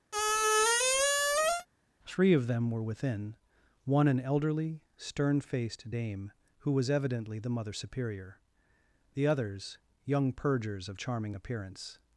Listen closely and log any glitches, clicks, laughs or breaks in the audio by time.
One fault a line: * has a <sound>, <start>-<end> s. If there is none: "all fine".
* has a squeak, 0.1-1.7 s